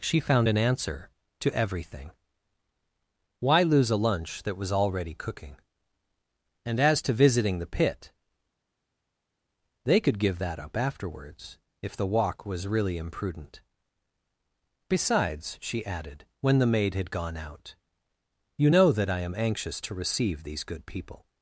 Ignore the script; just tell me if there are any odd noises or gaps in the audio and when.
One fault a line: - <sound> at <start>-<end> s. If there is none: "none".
none